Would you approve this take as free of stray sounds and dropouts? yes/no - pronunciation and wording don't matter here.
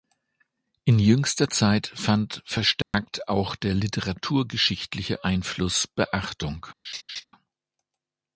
no